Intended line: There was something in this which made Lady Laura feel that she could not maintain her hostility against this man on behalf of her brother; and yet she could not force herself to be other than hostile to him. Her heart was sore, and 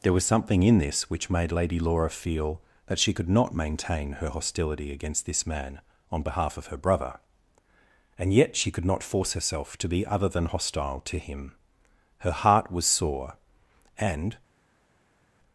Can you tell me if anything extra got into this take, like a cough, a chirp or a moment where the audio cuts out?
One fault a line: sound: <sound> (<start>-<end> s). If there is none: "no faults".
no faults